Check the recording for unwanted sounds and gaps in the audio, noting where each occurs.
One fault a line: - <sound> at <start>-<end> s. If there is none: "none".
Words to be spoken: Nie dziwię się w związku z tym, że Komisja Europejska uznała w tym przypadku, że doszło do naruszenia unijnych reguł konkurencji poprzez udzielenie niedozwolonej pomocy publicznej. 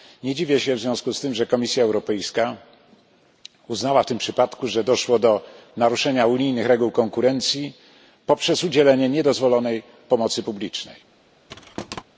- thud at 11.5-12.0 s